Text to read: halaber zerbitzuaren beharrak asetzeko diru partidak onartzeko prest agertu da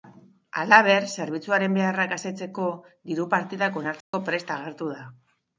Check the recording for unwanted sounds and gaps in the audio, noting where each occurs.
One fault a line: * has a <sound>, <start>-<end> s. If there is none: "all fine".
* has a dropout, 4.0-4.1 s